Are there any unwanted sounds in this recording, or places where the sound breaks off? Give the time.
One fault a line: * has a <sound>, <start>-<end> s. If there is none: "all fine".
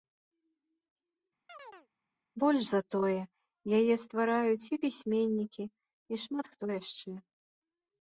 * has a chirp, 1.5-1.9 s